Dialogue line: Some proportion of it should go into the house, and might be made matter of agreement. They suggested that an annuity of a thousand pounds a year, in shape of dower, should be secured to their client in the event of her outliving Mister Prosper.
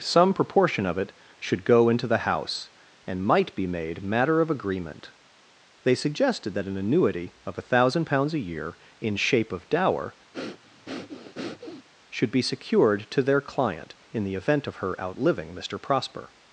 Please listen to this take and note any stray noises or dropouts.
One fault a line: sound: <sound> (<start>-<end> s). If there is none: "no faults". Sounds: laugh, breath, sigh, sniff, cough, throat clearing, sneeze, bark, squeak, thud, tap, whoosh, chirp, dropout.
sound: breath (10.3-11.9 s)